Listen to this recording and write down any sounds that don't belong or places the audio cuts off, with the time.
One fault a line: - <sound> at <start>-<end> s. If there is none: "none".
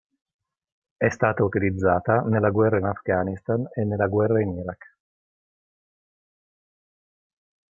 none